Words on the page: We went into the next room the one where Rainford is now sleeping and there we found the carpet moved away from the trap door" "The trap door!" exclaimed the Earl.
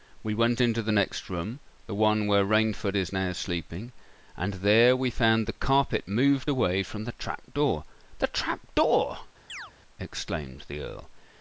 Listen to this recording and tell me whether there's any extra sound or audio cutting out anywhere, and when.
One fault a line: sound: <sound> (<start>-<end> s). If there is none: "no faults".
sound: chirp (9.5-9.7 s)